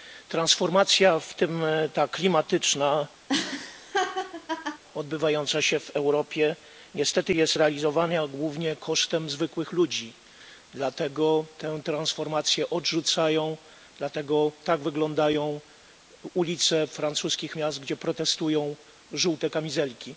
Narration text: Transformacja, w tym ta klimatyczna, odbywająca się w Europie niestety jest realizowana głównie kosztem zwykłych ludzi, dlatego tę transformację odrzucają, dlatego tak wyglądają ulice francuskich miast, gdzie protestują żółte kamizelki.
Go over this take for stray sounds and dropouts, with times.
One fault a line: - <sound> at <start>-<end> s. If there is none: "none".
- laugh at 3.3-4.8 s